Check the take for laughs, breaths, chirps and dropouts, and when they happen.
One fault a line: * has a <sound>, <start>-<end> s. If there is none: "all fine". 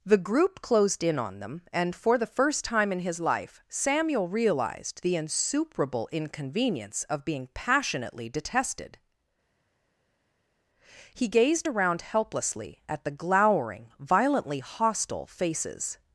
all fine